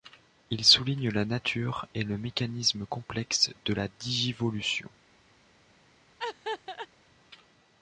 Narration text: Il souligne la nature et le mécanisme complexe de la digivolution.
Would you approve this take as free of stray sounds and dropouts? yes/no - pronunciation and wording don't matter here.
no